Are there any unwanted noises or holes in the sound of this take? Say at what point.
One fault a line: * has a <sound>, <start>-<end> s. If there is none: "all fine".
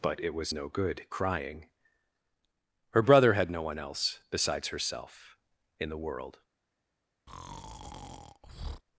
* has a breath, 7.3-8.8 s